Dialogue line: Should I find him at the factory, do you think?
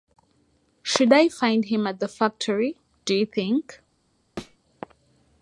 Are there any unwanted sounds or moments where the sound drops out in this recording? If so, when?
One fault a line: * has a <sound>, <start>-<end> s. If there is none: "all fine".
* has a thud, 4.4-4.6 s